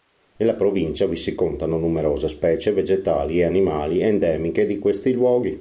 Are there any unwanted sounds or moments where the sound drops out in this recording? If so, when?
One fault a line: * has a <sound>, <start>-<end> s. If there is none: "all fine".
all fine